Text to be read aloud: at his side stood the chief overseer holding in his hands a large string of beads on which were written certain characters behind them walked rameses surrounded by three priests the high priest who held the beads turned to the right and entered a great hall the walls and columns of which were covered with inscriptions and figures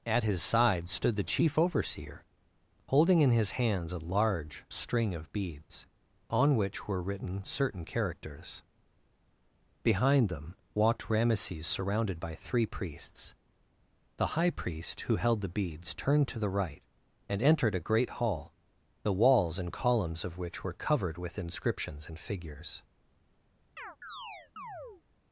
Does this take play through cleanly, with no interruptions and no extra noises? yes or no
no